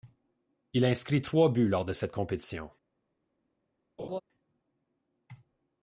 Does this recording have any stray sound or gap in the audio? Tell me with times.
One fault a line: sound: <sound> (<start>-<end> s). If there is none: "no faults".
sound: laugh (4.0-4.2 s)